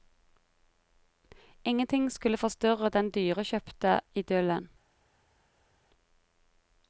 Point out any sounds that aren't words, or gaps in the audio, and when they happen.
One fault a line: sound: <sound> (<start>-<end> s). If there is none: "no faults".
no faults